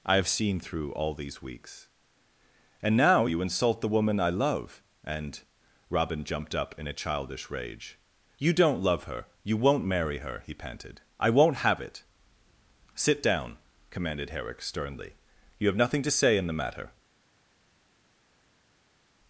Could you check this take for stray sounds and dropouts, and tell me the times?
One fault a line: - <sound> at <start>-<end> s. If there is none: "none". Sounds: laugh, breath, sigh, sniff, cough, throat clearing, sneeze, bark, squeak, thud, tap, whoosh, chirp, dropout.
none